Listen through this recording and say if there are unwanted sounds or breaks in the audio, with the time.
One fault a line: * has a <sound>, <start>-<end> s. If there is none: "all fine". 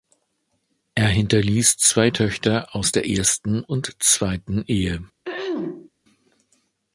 * has a throat clearing, 5.2-5.9 s